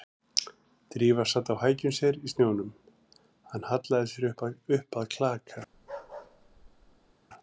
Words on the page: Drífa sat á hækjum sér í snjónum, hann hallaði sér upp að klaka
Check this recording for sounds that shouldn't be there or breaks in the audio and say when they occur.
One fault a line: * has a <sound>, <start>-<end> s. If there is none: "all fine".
* has a bark, 5.7-7.1 s